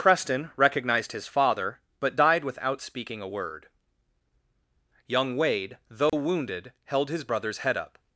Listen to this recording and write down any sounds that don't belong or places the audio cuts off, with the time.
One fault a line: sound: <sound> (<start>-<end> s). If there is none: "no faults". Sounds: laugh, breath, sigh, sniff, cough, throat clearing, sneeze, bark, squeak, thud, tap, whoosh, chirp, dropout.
sound: dropout (6.1-6.1 s)